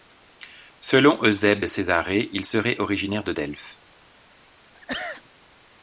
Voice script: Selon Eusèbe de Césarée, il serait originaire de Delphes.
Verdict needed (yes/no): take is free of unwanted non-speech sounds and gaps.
no